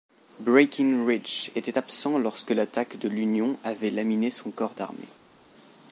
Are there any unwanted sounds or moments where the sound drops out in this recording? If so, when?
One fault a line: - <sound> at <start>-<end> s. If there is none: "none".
none